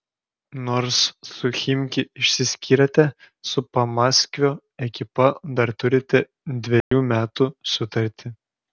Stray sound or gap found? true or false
true